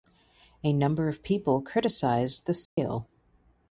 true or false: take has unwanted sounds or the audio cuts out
true